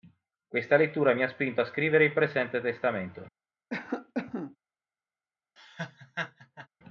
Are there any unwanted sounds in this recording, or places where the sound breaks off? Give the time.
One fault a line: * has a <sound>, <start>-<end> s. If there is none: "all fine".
* has a cough, 3.7-4.6 s
* has a laugh, 5.6-6.7 s